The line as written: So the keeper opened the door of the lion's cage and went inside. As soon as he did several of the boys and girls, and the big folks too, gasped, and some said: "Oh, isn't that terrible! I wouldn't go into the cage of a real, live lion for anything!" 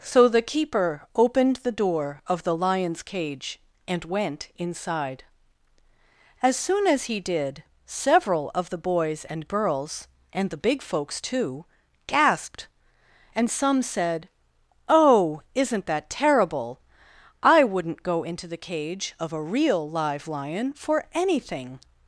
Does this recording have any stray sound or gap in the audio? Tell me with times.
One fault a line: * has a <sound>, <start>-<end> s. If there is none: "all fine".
all fine